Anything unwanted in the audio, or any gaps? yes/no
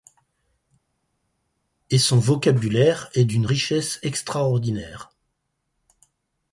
no